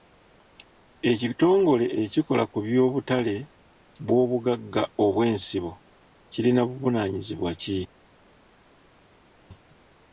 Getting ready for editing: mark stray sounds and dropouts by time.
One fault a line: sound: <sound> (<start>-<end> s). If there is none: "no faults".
no faults